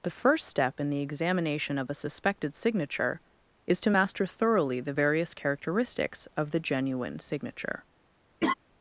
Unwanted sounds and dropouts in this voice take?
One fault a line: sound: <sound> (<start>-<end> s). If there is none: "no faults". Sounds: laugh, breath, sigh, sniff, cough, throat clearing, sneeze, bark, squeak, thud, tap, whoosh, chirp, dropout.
sound: laugh (8.4-8.5 s)